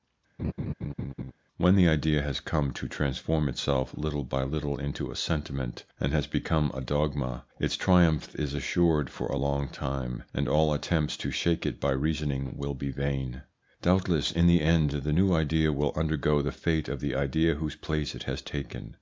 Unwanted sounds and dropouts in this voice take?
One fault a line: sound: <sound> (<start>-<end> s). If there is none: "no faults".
sound: laugh (0.4-1.3 s)